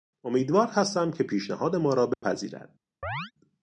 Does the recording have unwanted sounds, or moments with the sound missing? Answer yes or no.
yes